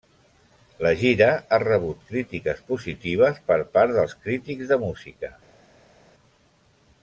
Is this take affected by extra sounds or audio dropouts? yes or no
no